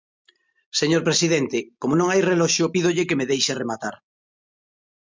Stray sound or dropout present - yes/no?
no